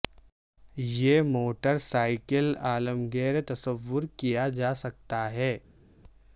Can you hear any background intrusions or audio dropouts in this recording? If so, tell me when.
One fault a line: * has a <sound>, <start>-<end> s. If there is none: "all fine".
all fine